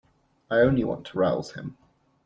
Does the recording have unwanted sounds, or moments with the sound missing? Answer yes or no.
no